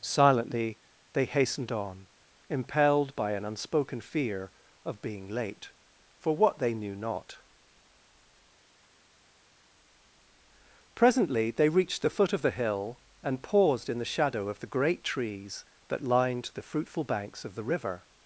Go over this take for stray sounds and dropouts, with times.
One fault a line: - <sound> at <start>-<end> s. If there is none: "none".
none